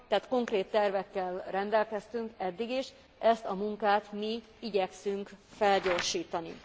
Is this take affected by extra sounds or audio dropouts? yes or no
no